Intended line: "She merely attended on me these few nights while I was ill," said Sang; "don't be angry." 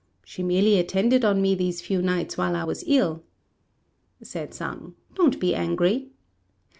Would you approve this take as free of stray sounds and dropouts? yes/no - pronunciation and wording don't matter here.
yes